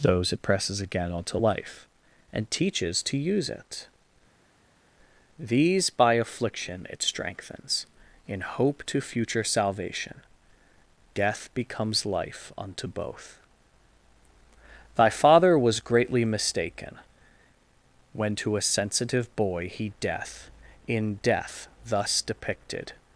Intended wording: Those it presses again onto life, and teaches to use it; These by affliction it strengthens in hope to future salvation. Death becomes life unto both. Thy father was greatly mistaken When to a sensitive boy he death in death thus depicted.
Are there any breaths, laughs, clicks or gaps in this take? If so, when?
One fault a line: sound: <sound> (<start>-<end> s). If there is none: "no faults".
no faults